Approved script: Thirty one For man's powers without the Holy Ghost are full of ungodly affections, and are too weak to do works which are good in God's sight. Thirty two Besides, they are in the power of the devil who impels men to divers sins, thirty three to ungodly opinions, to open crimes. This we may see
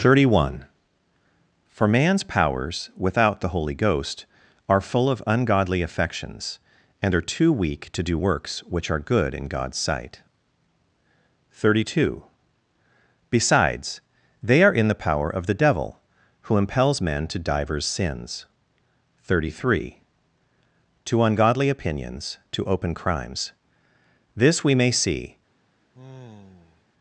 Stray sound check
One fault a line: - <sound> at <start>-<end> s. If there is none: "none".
- sigh at 25.9-26.8 s